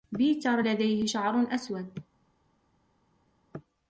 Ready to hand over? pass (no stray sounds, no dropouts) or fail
pass